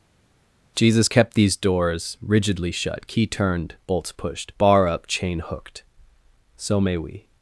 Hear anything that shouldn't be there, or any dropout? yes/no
no